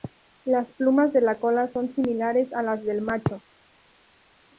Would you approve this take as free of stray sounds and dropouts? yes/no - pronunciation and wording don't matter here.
yes